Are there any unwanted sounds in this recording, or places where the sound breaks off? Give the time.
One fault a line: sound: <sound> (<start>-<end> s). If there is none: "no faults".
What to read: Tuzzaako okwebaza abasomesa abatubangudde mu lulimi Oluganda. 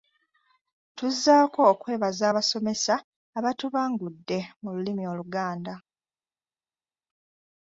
no faults